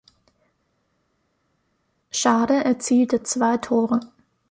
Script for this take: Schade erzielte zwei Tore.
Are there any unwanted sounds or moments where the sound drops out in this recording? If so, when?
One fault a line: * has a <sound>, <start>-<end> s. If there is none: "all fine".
all fine